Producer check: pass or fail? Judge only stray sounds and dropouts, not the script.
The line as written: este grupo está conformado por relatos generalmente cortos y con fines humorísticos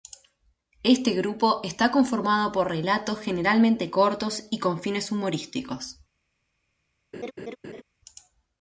fail